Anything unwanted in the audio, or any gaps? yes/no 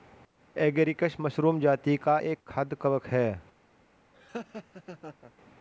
yes